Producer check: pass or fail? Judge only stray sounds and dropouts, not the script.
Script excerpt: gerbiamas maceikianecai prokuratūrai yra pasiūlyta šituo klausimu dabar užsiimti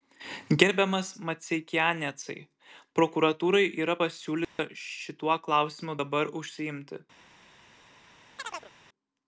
fail